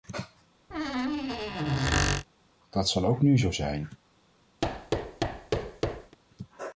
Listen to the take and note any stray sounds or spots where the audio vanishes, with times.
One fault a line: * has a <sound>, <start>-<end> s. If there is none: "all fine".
* has a squeak, 0.7-2.3 s
* has a thud, 4.6-6.2 s